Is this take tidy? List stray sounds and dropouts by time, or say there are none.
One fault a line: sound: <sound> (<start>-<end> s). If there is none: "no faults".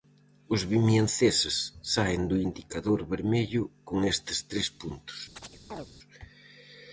sound: chirp (5.4-5.9 s)